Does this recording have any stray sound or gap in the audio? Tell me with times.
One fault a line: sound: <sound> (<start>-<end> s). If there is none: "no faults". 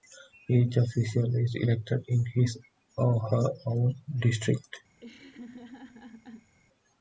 sound: laugh (5.0-6.5 s)